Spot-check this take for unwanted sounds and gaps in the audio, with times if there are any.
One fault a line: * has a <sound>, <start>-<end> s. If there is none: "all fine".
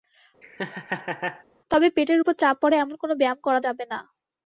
* has a laugh, 0.4-1.4 s